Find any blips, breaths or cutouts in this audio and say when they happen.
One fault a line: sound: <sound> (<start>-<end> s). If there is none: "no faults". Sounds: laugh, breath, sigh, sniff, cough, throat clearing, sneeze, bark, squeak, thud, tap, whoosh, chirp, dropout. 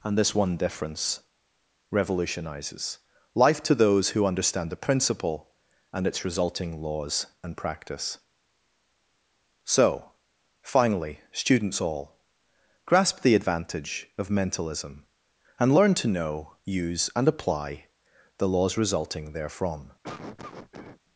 sound: cough (20.0-21.0 s)